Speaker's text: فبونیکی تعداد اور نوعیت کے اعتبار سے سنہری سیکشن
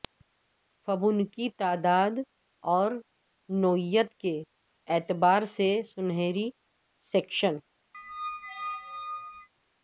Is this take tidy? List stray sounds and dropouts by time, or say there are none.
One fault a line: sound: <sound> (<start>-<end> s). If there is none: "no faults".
sound: squeak (7.9-9.5 s)